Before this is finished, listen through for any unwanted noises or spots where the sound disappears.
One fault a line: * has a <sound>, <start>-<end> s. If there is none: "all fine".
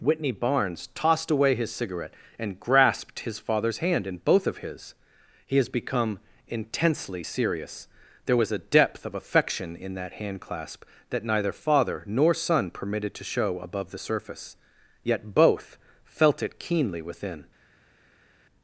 all fine